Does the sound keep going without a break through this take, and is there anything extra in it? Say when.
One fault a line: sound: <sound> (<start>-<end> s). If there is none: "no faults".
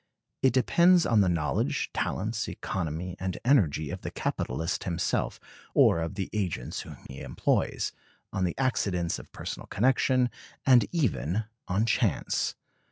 sound: dropout (7.1-7.1 s)